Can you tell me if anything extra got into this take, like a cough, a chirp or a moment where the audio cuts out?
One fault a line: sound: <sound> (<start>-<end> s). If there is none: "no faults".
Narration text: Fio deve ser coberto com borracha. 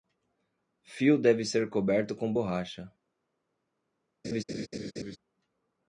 sound: laugh (4.2-5.2 s)